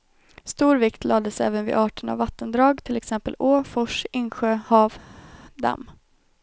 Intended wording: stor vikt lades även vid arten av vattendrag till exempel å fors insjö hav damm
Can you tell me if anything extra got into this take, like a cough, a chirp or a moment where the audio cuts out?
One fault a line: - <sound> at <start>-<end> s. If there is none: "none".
none